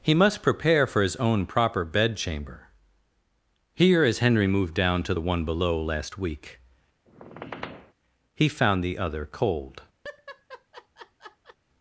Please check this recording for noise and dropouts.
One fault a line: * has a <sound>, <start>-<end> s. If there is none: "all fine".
* has a squeak, 7.1-7.9 s
* has a laugh, 10.0-11.6 s